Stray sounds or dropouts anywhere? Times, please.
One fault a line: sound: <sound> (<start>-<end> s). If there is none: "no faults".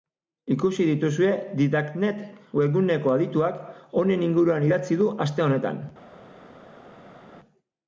no faults